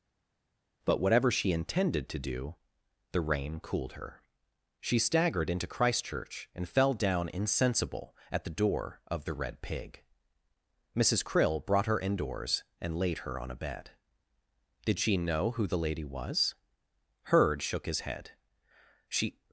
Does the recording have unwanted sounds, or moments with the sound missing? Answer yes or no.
no